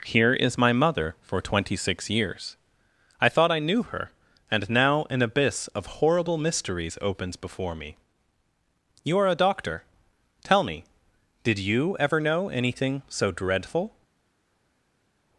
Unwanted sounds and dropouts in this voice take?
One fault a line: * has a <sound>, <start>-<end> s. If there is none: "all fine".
all fine